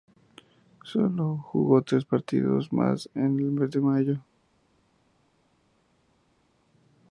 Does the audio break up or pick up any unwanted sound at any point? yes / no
no